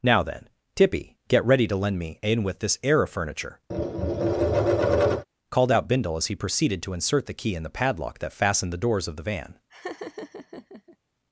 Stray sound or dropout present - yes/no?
yes